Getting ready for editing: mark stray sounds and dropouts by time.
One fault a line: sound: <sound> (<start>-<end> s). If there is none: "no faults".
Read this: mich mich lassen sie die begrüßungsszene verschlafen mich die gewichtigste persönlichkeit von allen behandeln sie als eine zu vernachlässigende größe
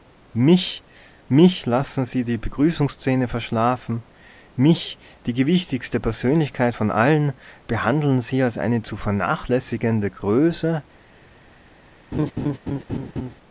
sound: laugh (12.1-13.4 s)